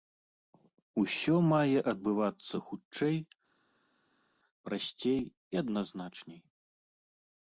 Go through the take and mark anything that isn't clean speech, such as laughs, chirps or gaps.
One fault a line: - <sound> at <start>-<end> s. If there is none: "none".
none